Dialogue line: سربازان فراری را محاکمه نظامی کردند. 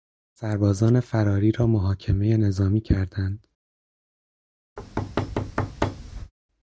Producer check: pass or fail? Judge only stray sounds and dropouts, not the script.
fail